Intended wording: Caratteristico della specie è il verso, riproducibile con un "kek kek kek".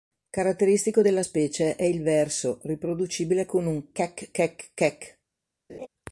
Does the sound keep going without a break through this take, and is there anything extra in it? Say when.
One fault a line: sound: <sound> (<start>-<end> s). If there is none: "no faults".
sound: laugh (5.7-5.9 s)